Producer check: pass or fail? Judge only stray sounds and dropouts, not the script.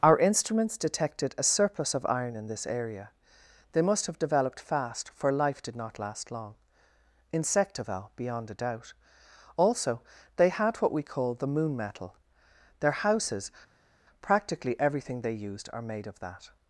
pass